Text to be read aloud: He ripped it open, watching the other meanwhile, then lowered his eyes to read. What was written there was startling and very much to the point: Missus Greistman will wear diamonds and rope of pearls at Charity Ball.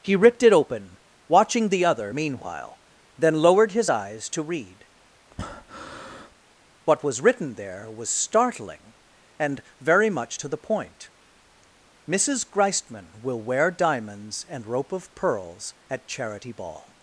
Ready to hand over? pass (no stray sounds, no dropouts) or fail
fail